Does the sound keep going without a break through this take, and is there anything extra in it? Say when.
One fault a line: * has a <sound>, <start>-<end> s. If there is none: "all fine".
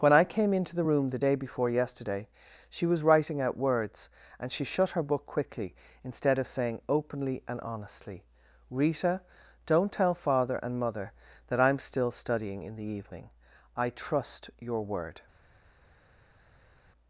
all fine